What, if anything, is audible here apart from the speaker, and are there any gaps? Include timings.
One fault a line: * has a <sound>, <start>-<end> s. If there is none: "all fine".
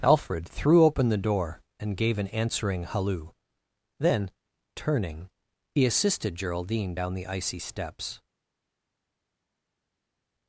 all fine